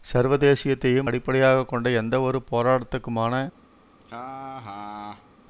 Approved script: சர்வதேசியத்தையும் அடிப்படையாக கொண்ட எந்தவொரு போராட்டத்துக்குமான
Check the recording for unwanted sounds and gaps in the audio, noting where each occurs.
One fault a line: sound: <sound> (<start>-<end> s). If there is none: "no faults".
sound: laugh (4.0-5.3 s)